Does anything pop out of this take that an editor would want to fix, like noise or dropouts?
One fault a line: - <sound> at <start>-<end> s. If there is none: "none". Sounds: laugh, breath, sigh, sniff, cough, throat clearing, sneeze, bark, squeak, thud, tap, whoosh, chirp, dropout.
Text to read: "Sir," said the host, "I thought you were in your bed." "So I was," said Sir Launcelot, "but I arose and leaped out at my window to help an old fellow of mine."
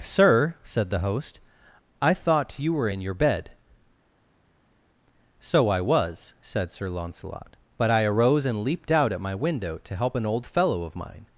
none